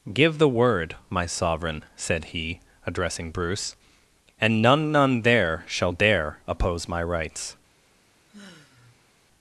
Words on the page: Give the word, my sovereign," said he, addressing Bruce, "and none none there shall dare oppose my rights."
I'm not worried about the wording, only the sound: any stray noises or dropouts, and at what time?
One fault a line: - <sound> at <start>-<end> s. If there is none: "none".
- sigh at 8.3-9.1 s